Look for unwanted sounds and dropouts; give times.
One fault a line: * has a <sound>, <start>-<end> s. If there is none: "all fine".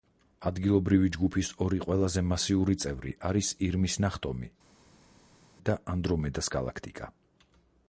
all fine